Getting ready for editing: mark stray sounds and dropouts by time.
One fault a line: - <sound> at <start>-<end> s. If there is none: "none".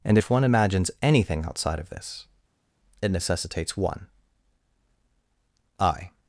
none